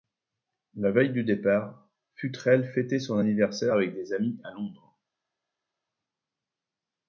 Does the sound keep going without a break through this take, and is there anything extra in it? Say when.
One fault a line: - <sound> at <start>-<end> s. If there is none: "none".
none